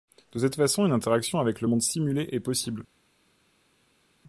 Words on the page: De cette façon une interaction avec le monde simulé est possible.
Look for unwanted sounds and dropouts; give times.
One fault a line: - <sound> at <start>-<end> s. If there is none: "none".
none